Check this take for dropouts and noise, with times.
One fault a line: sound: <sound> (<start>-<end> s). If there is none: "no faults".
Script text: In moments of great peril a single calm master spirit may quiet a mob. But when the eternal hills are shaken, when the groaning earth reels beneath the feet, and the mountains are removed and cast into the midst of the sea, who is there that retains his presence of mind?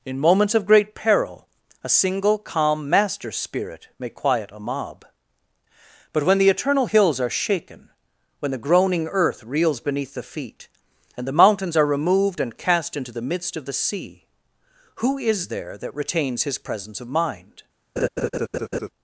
sound: laugh (18.0-18.9 s)